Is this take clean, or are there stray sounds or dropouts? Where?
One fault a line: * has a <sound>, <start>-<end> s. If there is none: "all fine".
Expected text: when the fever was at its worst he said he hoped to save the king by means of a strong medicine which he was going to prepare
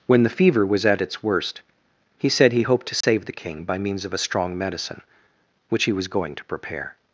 * has a dropout, 3.0-3.0 s